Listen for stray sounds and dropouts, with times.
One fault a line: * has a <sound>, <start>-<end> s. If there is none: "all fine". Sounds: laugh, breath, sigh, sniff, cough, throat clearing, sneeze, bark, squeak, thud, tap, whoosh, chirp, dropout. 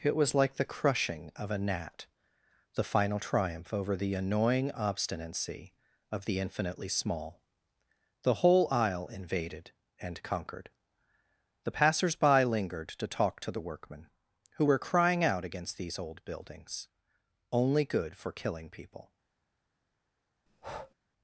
* has a breath, 20.5-21.0 s